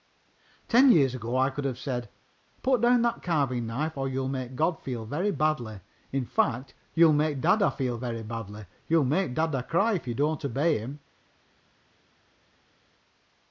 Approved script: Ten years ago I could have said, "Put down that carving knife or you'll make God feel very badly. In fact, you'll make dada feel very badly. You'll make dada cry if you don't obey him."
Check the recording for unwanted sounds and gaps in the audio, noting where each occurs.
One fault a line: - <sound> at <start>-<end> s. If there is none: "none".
none